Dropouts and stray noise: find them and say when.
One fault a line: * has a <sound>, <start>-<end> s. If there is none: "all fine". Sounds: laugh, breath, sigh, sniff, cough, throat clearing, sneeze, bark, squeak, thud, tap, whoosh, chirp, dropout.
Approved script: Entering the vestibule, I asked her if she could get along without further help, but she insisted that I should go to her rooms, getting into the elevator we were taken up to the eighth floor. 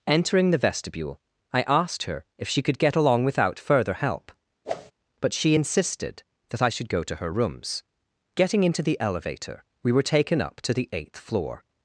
* has a whoosh, 4.6-4.9 s